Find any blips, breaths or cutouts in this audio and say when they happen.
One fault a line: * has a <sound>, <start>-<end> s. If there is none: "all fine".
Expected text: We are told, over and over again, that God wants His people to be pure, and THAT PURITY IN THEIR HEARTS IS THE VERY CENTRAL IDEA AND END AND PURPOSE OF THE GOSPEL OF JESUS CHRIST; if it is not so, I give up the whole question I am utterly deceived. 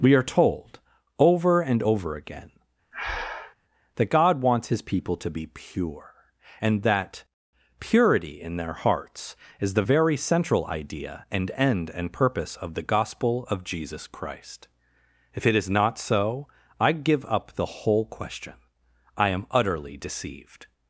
* has a breath, 2.9-3.6 s